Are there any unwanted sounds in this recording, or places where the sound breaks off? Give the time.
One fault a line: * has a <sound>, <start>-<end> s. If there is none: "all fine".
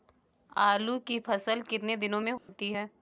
* has a dropout, 2.4-2.5 s